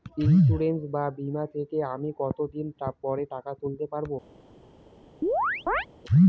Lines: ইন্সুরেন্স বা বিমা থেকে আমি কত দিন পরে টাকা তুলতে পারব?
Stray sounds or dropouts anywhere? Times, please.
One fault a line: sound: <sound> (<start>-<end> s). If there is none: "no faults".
sound: chirp (5.2-5.9 s)